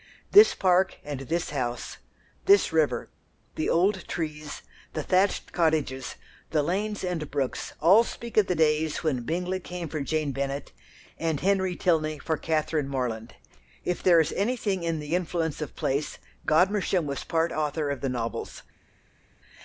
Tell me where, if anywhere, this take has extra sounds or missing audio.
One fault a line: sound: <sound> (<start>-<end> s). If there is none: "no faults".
no faults